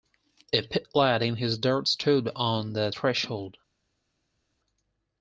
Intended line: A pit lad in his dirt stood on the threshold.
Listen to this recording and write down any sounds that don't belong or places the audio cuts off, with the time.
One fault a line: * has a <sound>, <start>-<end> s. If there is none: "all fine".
all fine